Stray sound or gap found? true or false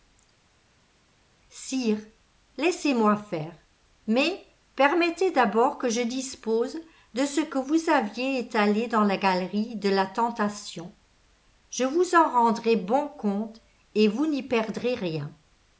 false